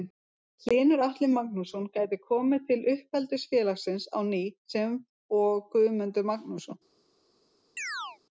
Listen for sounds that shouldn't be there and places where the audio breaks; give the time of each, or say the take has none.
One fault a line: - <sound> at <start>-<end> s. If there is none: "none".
- chirp at 7.8-8.2 s